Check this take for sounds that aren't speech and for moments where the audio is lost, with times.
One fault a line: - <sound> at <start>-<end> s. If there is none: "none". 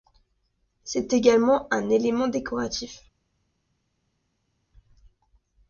none